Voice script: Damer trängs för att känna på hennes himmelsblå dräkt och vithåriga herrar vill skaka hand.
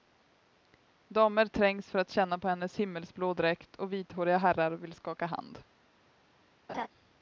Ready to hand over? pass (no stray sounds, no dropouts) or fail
fail